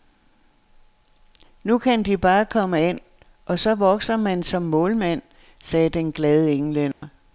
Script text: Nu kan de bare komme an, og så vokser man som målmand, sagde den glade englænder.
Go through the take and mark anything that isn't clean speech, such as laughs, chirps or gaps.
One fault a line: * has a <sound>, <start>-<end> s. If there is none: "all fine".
* has a dropout, 6.9-7.0 s